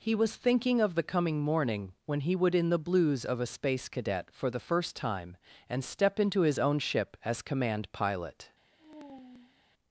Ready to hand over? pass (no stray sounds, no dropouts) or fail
fail